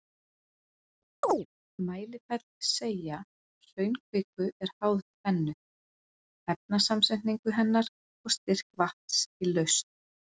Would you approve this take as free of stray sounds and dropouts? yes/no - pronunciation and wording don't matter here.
no